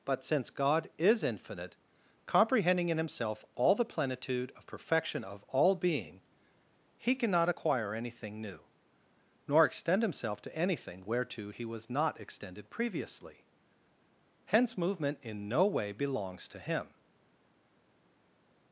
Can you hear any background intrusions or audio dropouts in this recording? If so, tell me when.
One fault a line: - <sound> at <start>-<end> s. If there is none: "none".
none